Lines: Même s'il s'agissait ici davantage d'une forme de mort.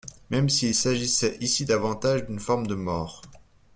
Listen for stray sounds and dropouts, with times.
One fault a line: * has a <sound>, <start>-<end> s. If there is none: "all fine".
all fine